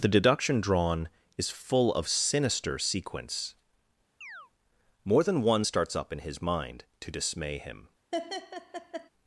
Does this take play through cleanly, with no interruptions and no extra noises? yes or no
no